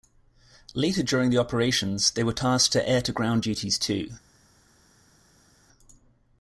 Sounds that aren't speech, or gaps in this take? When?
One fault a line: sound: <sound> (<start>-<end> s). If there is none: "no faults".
no faults